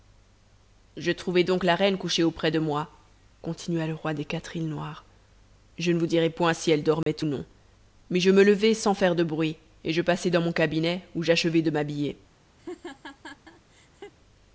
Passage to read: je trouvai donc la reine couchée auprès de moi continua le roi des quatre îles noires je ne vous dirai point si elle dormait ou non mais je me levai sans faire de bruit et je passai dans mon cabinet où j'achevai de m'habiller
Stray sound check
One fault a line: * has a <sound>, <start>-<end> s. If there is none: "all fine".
* has a dropout, 7.0-7.1 s
* has a laugh, 12.6-14.1 s